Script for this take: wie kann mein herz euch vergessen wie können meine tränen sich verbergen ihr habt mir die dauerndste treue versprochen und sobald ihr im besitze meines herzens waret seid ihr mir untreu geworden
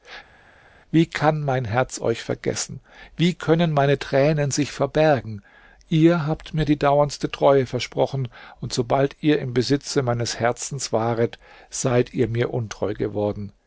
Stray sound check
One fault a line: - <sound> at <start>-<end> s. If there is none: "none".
none